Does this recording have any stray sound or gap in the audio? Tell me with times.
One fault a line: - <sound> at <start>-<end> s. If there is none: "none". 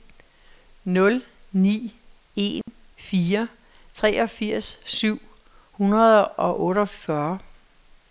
- dropout at 2.6-2.7 s